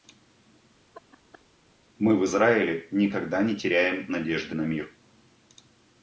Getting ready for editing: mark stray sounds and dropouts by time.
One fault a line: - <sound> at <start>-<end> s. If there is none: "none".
- laugh at 0.9-1.5 s